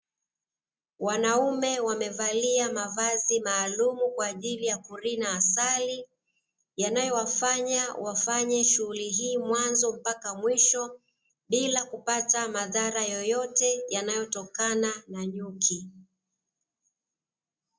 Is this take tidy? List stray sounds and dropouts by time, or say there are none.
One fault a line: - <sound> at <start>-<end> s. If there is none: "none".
none